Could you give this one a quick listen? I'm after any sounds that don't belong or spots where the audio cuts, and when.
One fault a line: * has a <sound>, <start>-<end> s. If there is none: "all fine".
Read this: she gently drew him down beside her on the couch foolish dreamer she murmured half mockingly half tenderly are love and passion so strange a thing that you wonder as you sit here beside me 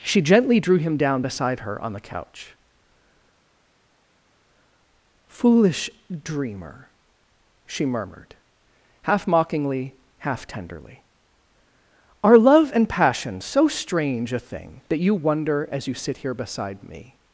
all fine